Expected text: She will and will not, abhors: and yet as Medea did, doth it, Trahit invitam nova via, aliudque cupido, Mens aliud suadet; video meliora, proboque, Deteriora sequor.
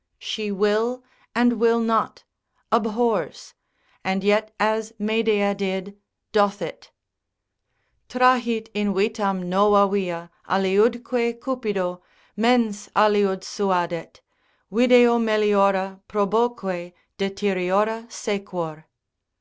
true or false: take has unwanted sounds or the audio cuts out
false